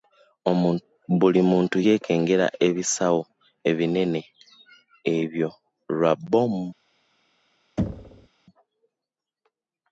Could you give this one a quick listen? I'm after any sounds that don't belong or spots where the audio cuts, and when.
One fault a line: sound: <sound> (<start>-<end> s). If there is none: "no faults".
sound: thud (7.8-8.3 s)